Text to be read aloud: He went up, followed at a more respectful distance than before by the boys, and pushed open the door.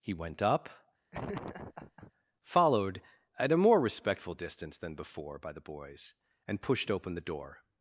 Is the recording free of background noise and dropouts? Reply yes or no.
no